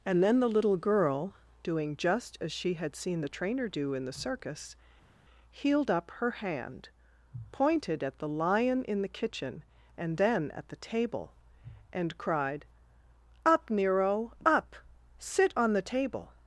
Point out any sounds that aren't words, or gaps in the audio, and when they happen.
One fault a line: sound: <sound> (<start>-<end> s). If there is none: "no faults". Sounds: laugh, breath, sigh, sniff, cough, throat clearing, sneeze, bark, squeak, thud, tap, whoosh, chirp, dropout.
no faults